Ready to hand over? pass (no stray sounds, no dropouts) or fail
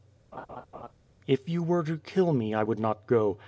fail